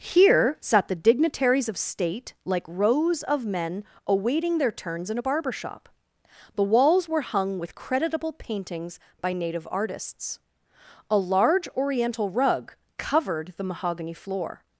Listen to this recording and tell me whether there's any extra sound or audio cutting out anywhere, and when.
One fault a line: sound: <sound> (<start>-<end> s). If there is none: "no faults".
no faults